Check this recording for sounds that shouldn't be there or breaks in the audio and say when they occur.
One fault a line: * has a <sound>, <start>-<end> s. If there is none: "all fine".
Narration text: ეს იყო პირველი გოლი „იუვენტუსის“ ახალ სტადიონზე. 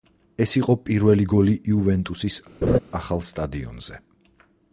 * has a laugh, 2.6-2.8 s